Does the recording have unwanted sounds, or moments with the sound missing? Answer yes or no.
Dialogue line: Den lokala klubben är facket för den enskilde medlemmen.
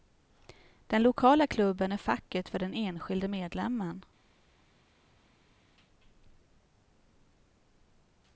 no